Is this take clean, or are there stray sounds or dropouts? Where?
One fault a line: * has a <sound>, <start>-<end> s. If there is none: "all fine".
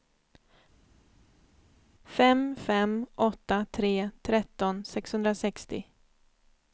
all fine